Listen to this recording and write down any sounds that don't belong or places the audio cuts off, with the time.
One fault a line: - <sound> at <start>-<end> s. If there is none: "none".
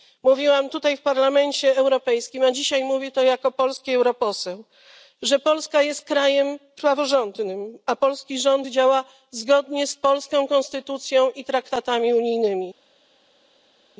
none